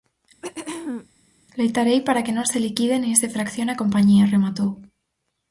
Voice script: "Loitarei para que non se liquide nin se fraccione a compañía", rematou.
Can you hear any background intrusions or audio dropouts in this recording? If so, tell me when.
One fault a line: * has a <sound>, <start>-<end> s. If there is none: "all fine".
* has a throat clearing, 0.4-1.1 s